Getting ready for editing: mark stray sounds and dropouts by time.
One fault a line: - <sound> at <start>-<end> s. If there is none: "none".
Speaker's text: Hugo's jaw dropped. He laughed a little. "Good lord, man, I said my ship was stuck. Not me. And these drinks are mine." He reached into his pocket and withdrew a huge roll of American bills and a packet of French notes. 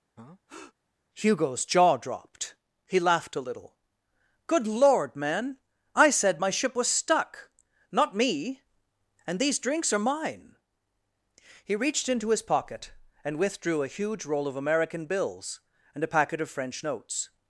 - breath at 0.2-0.7 s